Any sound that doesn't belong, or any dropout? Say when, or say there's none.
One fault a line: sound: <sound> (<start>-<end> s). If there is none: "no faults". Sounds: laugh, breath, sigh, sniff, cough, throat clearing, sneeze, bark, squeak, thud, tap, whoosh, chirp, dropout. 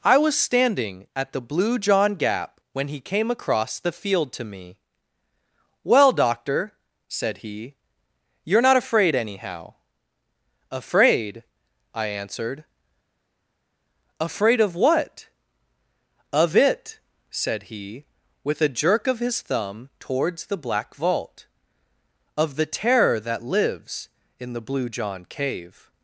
no faults